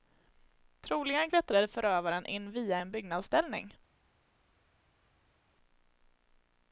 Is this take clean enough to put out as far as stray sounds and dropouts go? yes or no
yes